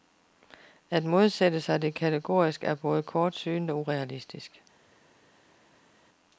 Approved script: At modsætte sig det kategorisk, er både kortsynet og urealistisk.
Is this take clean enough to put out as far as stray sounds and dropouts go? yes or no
yes